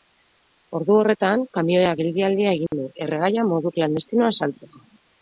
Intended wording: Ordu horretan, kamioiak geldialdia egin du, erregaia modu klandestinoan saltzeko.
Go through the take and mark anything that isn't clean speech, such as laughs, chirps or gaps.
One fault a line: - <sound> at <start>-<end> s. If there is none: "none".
- dropout at 2.7-2.7 s